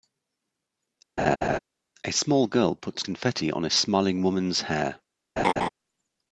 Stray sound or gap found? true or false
true